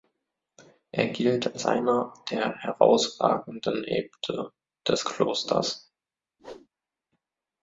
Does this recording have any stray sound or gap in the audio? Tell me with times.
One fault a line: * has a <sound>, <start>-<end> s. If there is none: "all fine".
* has a whoosh, 6.4-6.7 s